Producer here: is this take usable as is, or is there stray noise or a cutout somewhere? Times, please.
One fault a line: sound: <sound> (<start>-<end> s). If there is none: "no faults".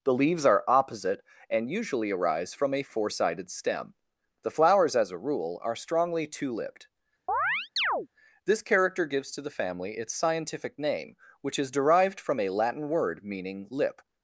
sound: chirp (7.3-8.1 s)